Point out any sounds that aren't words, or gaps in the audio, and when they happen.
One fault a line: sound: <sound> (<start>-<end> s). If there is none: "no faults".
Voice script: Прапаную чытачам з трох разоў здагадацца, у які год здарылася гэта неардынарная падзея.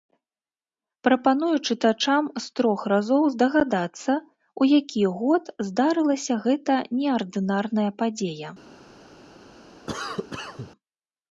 sound: cough (9.9-10.7 s)